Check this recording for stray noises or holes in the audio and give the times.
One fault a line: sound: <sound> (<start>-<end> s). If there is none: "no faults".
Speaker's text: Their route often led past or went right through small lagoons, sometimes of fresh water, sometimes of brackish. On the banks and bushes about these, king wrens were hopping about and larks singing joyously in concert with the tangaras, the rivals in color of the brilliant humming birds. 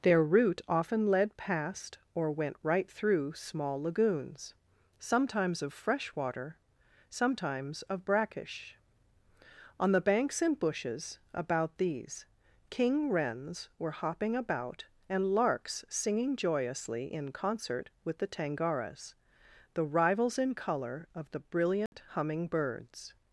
sound: dropout (21.9-21.9 s)